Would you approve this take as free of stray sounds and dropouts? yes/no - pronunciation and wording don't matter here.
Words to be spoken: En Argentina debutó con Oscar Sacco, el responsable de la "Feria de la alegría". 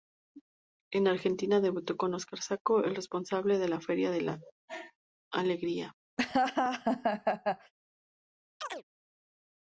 no